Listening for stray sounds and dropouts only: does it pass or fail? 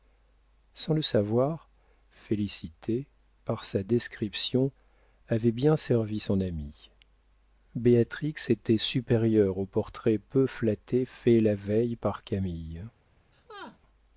fail